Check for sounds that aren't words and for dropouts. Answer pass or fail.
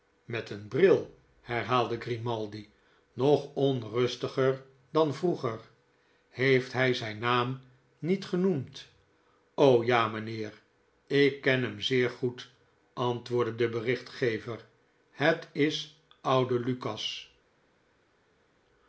pass